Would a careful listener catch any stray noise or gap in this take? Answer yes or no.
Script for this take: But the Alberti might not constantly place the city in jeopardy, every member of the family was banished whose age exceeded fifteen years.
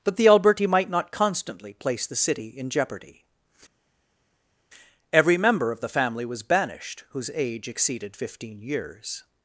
no